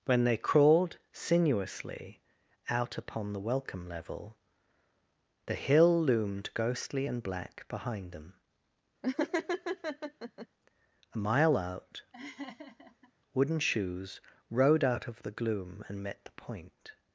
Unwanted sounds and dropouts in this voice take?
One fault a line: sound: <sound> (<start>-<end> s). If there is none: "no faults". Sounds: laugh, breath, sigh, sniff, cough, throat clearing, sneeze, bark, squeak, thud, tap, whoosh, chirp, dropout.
sound: laugh (9.0-10.5 s)
sound: laugh (12.1-13.1 s)